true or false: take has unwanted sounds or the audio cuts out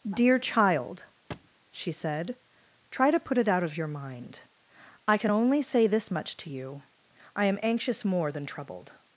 true